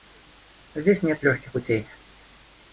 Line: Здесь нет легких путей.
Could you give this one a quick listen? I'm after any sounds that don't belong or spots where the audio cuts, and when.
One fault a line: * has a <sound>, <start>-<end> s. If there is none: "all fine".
all fine